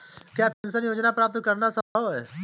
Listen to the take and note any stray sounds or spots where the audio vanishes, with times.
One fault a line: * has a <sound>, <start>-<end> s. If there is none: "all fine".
* has a dropout, 0.5-0.6 s
* has a dropout, 1.8-2.0 s